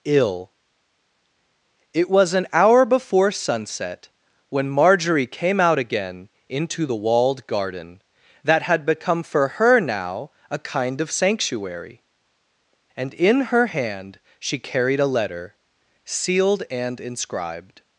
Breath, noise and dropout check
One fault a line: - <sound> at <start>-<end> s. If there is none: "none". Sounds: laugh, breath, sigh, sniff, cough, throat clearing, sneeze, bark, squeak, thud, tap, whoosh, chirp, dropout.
none